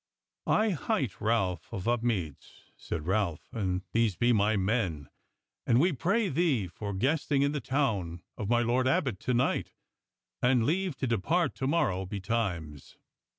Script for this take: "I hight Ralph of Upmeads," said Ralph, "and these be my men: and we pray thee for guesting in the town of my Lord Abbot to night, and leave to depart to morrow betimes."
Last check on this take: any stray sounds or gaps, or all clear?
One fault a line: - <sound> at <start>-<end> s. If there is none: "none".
none